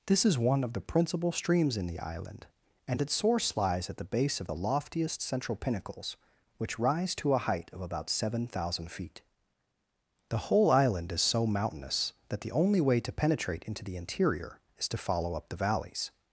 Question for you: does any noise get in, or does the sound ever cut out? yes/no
no